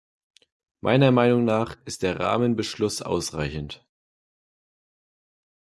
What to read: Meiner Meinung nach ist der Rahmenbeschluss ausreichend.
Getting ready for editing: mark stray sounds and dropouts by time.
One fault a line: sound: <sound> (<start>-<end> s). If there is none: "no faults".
no faults